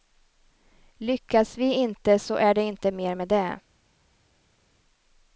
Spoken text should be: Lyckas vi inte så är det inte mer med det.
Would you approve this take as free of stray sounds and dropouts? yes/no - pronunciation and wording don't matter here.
yes